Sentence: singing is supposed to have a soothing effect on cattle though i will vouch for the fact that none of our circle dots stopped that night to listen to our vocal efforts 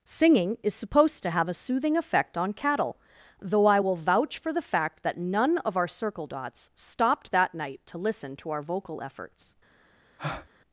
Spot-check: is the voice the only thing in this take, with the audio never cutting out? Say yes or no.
no